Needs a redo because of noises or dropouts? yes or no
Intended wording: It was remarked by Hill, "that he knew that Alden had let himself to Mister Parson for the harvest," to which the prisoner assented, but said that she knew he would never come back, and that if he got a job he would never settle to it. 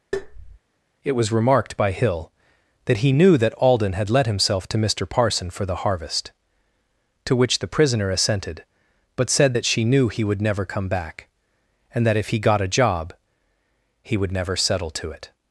yes